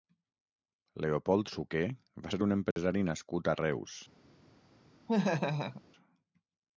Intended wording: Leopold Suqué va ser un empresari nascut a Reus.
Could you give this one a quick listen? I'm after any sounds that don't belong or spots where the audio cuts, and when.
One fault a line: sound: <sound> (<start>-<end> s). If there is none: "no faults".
sound: dropout (2.7-2.8 s)
sound: laugh (5.1-5.8 s)